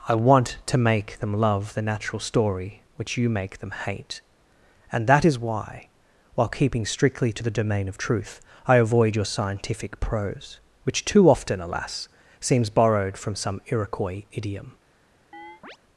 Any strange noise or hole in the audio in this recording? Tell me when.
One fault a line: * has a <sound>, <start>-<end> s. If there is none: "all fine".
* has a chirp, 15.3-15.8 s